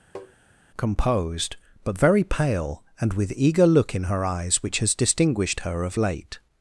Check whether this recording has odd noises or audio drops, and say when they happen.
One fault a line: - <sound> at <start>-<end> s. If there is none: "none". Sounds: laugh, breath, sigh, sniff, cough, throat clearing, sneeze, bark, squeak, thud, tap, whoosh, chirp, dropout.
- tap at 0.1-0.3 s